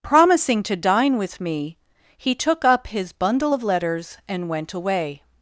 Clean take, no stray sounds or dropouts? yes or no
yes